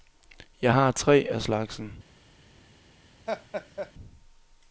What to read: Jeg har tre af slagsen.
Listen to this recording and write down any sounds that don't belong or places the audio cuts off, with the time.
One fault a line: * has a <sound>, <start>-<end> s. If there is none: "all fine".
* has a laugh, 3.3-3.9 s